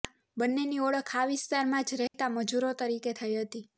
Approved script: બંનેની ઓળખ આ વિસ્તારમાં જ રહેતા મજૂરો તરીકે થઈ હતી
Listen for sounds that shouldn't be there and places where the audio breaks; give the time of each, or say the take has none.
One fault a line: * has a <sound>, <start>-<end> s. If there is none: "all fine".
* has a dropout, 2.1-2.1 s